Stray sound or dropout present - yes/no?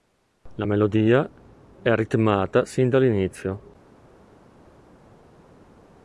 no